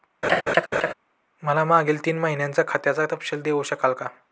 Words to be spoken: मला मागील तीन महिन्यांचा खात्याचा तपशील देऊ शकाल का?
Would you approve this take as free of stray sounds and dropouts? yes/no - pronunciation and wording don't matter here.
no